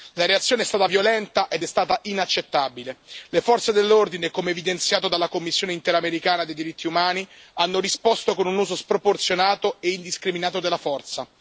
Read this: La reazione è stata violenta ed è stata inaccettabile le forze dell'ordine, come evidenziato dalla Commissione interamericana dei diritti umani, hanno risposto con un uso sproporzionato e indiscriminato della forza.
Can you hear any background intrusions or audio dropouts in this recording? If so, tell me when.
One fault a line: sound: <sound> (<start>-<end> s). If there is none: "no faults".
no faults